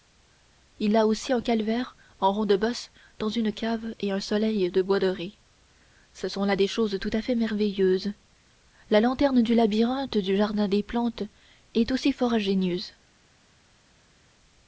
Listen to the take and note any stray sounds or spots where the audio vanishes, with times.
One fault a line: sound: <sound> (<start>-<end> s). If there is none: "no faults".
no faults